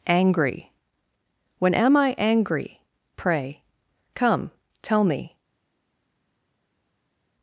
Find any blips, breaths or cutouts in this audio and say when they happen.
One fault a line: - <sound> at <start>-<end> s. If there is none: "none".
none